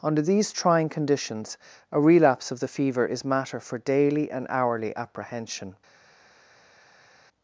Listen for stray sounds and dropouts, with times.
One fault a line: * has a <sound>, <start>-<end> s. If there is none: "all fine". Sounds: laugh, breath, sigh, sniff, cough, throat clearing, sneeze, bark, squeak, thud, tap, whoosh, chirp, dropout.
all fine